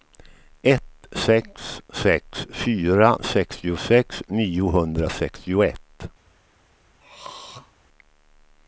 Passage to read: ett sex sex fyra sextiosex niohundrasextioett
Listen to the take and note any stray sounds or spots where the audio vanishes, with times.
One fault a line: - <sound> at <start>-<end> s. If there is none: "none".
- throat clearing at 7.0-7.7 s